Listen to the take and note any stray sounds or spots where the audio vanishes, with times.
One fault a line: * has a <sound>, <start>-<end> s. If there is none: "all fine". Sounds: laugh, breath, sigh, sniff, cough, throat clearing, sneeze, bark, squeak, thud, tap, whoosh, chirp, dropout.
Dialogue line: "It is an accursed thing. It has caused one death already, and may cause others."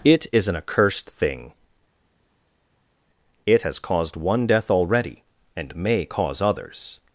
all fine